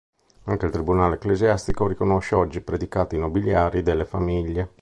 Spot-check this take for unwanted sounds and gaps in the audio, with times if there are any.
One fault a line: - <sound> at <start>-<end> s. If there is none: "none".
none